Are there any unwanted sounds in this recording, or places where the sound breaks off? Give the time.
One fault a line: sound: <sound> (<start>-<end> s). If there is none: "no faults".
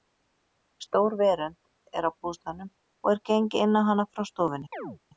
sound: chirp (4.7-5.0 s)